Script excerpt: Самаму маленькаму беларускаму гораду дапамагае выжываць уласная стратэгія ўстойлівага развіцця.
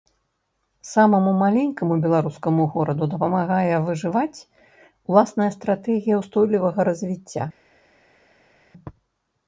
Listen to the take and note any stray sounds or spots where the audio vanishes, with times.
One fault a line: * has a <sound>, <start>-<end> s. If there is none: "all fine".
all fine